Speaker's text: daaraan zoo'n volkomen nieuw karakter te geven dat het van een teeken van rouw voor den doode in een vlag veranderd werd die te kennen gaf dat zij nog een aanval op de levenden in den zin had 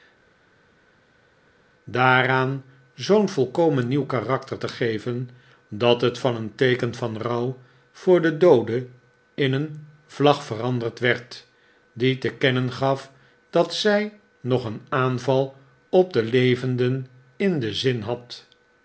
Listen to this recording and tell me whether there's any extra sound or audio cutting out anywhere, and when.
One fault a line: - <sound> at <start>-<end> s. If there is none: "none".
none